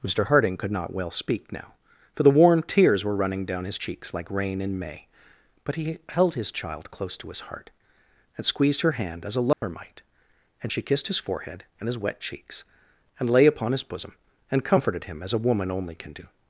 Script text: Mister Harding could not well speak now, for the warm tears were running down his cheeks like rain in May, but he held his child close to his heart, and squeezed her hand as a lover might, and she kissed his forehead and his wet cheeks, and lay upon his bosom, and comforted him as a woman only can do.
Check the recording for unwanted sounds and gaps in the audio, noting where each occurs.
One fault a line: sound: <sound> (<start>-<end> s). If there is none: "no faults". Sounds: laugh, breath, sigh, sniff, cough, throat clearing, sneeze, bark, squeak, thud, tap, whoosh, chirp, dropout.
sound: dropout (9.5-9.6 s)